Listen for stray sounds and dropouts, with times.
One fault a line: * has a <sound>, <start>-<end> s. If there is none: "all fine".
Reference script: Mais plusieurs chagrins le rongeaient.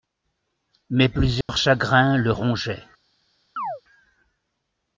* has a dropout, 1.4-1.5 s
* has a chirp, 3.6-3.8 s